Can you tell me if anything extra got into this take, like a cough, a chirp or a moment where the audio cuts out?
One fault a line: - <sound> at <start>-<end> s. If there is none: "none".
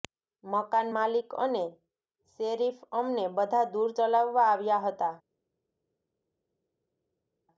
none